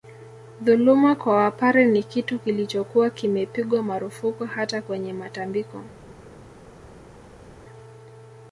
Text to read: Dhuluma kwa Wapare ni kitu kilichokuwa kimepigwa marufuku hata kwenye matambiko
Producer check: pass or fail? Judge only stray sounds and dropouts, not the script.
pass